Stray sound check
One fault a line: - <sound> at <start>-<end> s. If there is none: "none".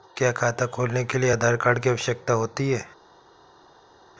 none